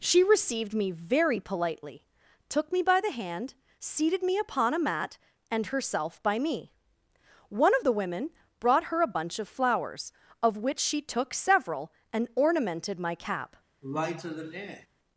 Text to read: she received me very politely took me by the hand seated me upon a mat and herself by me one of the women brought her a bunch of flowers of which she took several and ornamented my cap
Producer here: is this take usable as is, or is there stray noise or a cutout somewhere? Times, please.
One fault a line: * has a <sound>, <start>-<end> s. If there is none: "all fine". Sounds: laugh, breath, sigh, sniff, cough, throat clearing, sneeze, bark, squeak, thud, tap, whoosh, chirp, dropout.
* has a sigh, 13.8-14.9 s